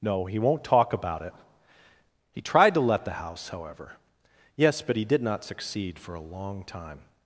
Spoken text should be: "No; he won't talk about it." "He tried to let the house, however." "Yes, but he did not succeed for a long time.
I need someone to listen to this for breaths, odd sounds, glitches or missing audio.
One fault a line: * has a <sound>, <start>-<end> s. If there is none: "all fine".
all fine